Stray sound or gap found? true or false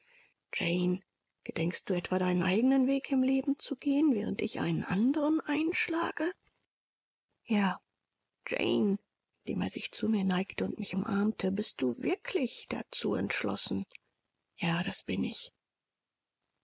false